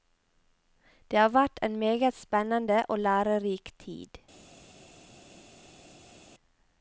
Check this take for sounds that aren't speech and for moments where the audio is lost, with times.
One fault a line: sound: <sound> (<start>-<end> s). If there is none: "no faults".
no faults